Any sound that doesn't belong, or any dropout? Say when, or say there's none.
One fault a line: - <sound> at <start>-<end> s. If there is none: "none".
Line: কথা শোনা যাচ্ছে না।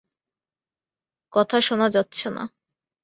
none